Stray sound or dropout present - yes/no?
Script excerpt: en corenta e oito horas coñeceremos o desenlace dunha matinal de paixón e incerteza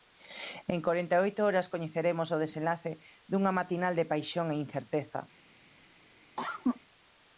yes